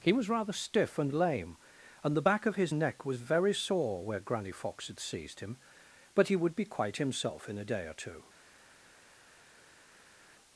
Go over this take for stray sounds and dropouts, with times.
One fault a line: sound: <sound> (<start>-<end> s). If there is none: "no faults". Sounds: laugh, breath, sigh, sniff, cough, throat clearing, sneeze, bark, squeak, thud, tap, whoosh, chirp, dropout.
no faults